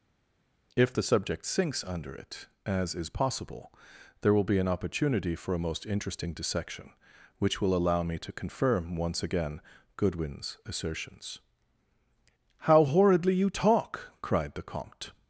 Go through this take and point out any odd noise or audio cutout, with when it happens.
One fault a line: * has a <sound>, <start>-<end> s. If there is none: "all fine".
all fine